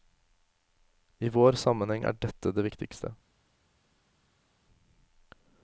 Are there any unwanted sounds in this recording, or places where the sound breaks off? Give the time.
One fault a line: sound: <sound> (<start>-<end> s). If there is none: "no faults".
no faults